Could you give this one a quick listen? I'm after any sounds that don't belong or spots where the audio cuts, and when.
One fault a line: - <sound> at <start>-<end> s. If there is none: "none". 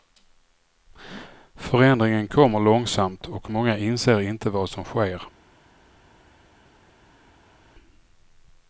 none